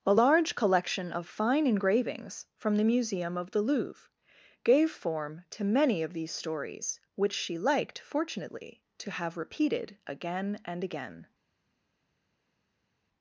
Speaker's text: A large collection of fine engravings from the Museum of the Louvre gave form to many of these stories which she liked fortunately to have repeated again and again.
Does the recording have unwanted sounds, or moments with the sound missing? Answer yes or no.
no